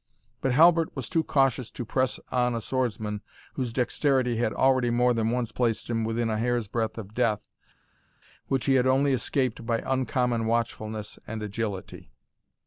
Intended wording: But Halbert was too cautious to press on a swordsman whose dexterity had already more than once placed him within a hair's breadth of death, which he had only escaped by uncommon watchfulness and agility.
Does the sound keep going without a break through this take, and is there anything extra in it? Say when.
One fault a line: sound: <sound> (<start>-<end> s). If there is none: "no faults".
no faults